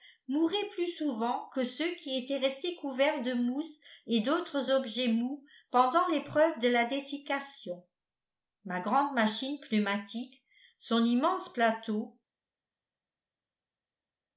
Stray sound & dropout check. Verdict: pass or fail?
pass